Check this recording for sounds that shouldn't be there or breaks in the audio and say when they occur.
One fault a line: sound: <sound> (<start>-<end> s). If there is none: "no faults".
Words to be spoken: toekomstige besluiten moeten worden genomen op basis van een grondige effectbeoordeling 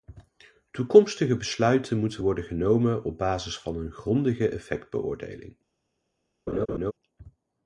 sound: laugh (6.5-6.9 s)